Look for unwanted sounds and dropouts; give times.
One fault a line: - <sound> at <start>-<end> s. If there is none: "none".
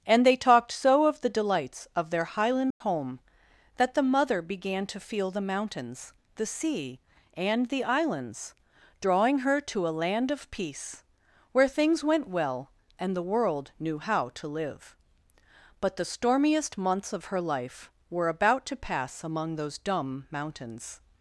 - dropout at 2.7-2.8 s